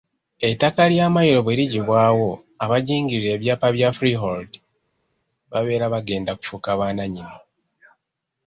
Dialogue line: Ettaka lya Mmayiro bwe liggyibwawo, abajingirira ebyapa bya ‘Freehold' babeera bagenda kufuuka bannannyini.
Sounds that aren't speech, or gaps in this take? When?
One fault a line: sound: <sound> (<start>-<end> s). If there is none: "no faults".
no faults